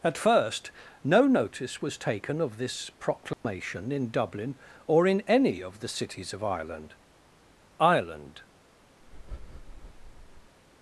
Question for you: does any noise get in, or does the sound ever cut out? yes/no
yes